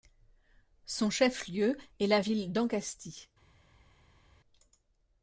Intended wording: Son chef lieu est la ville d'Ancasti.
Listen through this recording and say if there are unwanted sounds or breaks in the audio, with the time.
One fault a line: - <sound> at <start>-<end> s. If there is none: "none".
none